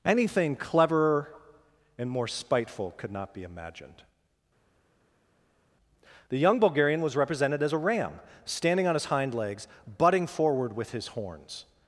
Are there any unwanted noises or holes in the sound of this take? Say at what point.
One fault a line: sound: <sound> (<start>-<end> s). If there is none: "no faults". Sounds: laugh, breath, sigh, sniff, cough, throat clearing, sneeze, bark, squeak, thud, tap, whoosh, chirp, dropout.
no faults